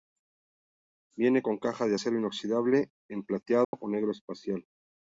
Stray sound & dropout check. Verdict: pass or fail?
fail